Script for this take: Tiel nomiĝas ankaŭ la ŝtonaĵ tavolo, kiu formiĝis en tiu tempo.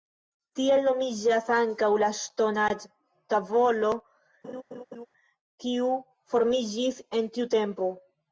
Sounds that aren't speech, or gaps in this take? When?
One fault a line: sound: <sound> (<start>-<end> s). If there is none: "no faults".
sound: laugh (4.4-5.1 s)